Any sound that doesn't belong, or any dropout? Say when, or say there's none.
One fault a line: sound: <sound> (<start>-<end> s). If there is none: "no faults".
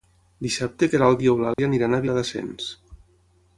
sound: dropout (1.5-1.6 s)